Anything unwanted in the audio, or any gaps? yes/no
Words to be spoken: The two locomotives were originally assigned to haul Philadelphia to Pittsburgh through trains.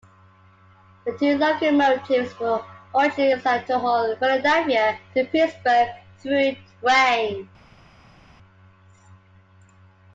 no